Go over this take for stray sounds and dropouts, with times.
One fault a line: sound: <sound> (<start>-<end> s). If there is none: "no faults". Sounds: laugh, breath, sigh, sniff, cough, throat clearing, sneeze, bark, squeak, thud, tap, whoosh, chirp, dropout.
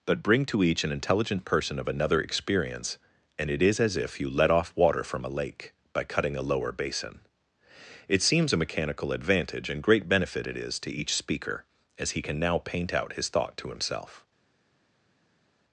no faults